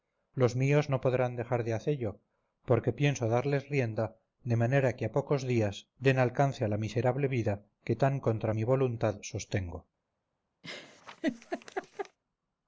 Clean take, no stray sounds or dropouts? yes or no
no